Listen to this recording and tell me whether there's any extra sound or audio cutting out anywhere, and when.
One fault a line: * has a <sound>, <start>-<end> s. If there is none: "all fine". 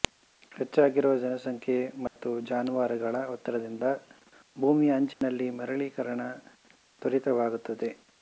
* has a dropout, 2.1-2.2 s
* has a dropout, 5.1-5.2 s